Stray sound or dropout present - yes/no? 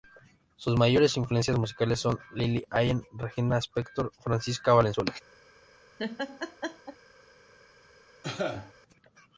yes